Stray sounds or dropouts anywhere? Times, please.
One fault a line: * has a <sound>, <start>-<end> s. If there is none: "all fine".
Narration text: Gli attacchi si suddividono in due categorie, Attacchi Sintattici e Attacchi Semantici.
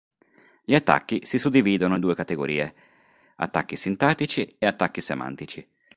all fine